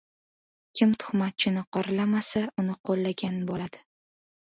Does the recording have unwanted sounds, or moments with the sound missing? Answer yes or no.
no